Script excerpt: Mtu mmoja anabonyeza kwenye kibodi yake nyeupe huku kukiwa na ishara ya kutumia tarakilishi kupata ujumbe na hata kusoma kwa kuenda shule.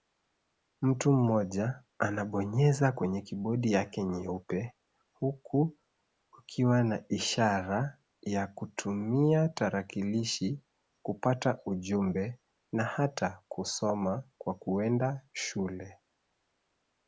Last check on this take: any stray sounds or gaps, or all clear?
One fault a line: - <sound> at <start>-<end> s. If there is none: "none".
none